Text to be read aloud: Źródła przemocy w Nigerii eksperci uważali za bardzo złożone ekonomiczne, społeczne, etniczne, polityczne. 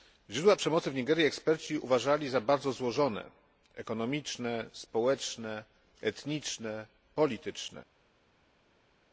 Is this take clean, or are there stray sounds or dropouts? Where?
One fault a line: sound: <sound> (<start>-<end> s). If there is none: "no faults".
no faults